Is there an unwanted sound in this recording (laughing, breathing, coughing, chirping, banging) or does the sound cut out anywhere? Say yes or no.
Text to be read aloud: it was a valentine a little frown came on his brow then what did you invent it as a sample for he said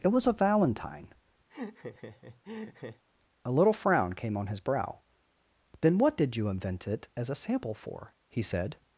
yes